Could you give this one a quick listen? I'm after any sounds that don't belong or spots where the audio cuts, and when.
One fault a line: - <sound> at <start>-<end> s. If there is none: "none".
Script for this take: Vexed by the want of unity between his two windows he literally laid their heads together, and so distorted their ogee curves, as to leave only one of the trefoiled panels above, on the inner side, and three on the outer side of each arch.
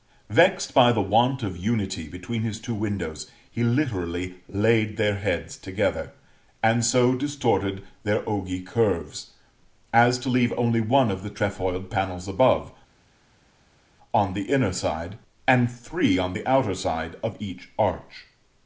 none